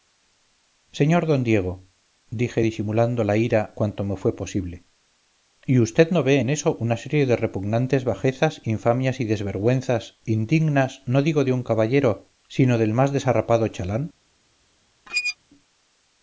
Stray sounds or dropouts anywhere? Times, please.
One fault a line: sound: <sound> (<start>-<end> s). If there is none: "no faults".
sound: squeak (15.1-15.4 s)